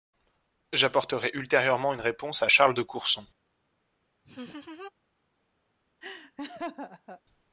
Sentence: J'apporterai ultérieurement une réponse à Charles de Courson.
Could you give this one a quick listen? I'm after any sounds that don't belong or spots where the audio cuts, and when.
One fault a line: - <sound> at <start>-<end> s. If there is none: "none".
- laugh at 4.2-4.9 s
- laugh at 6.0-7.2 s